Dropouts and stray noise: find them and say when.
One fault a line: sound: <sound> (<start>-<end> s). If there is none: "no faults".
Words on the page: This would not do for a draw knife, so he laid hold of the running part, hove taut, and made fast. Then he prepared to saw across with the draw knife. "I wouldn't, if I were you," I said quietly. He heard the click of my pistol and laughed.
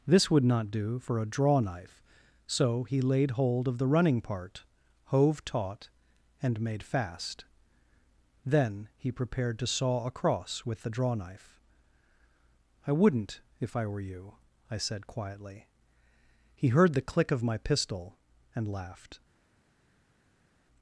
no faults